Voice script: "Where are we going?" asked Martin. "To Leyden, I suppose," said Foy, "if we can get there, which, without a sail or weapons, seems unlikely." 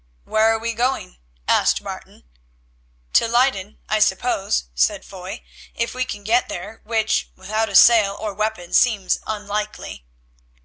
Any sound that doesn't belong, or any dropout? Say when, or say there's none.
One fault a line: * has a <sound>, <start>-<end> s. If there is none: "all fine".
all fine